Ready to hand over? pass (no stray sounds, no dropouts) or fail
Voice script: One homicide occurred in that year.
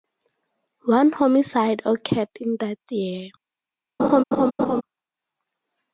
fail